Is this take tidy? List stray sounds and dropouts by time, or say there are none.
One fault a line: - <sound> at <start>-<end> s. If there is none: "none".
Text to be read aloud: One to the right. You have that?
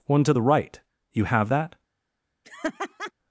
- laugh at 2.4-3.1 s